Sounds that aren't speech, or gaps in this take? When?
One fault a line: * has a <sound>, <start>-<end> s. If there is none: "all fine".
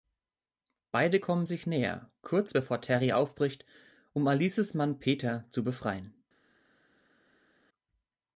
all fine